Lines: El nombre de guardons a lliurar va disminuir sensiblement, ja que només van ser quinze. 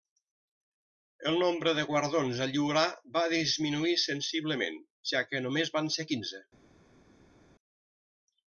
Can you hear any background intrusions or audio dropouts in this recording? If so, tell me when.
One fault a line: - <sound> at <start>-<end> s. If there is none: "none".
none